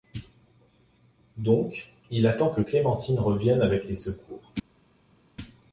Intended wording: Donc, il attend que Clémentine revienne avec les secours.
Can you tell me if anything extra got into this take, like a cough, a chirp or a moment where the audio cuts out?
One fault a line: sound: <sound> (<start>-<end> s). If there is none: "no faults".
no faults